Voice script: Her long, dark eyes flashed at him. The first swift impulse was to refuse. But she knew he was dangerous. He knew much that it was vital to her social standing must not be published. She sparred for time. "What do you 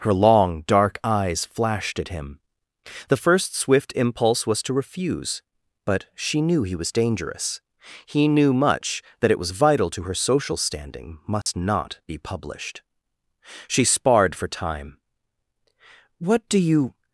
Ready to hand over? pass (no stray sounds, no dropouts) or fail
fail